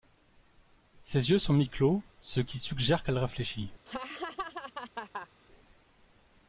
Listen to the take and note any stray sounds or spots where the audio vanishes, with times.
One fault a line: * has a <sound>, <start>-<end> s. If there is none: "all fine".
* has a laugh, 3.9-5.3 s